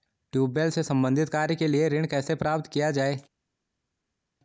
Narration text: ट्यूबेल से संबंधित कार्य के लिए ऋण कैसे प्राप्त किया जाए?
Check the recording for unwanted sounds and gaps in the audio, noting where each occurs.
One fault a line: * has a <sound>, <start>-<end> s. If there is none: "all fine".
all fine